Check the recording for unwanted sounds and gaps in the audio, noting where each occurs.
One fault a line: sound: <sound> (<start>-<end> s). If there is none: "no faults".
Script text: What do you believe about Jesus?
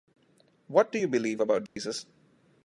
sound: dropout (1.7-1.8 s)